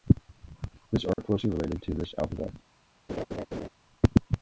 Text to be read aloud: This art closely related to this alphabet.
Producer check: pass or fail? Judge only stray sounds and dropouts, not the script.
fail